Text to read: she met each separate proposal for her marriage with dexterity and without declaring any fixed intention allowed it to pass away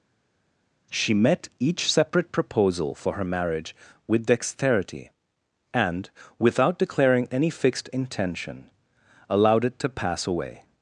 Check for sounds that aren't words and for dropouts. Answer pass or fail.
pass